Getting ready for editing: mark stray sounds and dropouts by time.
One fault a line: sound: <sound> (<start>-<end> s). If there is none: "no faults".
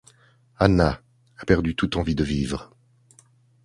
no faults